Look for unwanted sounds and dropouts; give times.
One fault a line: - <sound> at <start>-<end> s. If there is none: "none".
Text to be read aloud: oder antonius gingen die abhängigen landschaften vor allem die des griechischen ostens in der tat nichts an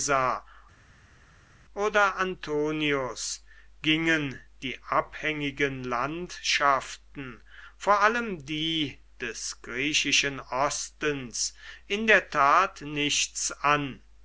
none